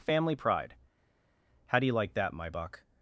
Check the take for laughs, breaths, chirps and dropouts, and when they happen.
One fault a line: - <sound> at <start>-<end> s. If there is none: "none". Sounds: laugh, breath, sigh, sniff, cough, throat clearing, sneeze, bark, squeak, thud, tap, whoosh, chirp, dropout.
none